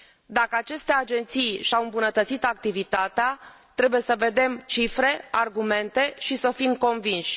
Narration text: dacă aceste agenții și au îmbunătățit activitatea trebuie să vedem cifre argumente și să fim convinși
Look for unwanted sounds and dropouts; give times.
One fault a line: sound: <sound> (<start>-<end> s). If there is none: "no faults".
no faults